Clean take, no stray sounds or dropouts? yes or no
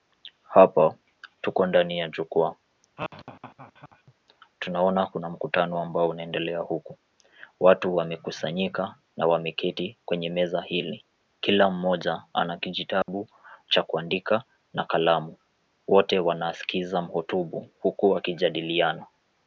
no